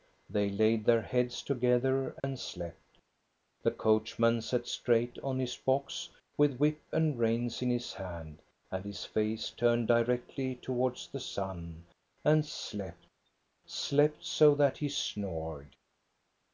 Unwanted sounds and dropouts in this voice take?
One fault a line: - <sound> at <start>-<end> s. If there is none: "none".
- dropout at 2.2-2.2 s